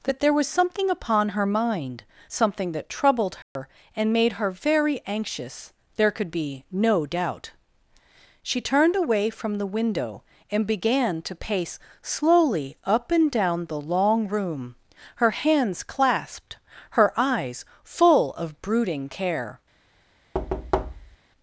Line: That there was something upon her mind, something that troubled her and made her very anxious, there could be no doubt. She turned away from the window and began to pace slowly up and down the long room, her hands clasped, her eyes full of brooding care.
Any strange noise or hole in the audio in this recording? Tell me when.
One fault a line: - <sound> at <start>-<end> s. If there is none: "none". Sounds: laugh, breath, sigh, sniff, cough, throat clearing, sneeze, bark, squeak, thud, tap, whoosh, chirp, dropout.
- dropout at 3.4-3.6 s
- thud at 20.3-21.2 s